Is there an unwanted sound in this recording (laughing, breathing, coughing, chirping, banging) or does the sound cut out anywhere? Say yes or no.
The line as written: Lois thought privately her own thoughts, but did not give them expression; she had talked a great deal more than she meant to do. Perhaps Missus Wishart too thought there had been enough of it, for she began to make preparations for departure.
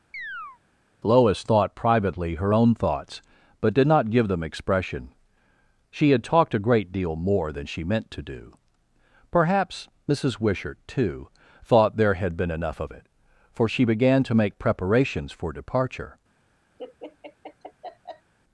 yes